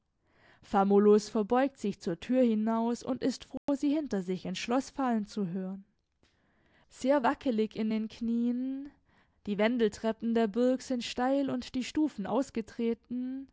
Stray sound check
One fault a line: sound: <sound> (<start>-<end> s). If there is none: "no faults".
sound: dropout (3.6-3.7 s)